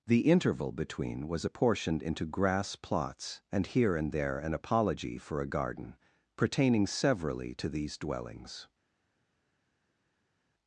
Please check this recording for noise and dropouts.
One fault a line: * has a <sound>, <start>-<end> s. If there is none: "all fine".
all fine